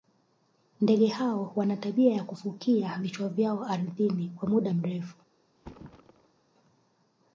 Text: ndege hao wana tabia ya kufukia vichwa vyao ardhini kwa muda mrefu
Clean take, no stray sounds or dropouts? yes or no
no